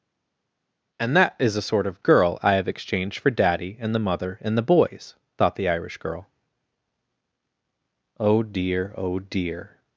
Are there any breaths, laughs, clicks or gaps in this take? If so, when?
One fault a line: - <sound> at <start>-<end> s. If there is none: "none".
none